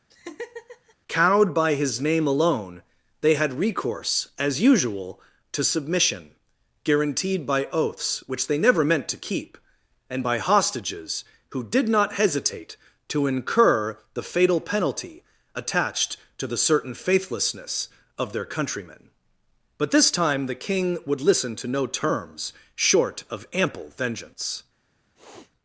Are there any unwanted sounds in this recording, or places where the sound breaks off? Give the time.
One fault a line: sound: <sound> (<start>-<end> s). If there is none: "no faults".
sound: laugh (0.1-0.9 s)
sound: sniff (25.2-25.5 s)